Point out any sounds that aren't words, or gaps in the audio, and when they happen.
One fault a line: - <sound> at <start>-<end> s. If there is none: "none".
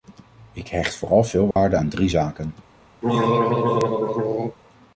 - dropout at 1.5-1.6 s
- throat clearing at 3.0-4.6 s